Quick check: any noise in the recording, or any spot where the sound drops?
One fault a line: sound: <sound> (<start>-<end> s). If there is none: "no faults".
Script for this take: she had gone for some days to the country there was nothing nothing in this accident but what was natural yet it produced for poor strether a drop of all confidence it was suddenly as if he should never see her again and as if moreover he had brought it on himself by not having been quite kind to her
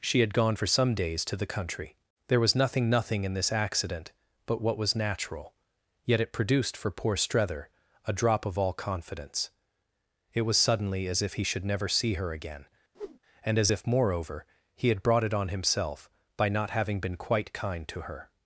sound: whoosh (12.9-13.2 s)